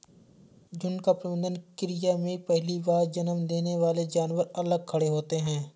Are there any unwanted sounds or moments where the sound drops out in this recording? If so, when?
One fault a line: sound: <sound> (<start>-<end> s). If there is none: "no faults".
no faults